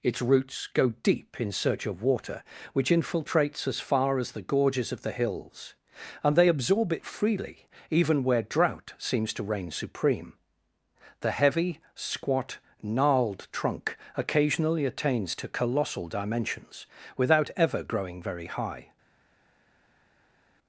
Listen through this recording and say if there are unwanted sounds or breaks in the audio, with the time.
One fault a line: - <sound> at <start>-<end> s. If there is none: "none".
none